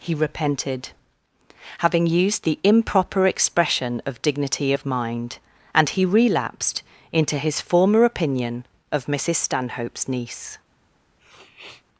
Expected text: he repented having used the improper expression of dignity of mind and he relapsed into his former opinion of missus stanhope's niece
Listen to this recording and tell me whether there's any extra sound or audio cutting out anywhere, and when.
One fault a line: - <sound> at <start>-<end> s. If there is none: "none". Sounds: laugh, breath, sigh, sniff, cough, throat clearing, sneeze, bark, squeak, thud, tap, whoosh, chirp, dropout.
- sniff at 11.2-11.8 s